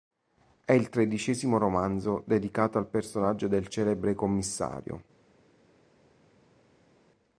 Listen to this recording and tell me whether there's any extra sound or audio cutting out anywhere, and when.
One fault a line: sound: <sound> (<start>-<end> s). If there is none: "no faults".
no faults